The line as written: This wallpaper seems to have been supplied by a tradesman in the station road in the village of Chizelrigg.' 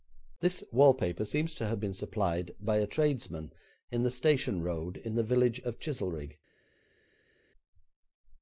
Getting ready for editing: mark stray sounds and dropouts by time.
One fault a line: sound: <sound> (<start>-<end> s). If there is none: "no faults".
no faults